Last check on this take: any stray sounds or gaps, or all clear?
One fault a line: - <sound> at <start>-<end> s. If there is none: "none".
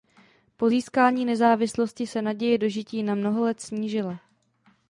none